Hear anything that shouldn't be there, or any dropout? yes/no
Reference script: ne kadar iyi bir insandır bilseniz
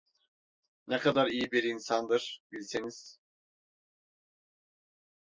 no